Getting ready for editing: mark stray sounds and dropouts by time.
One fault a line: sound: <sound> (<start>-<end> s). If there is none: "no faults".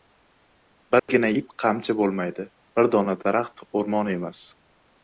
sound: dropout (1.0-1.1 s)